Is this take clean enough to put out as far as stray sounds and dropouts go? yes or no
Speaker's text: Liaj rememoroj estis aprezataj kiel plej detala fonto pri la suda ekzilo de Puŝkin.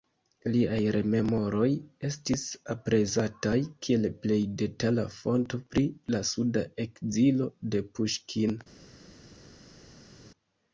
yes